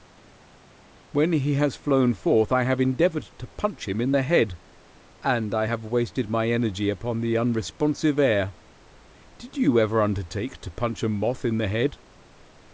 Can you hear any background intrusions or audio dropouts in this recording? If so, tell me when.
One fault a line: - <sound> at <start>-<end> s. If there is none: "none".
none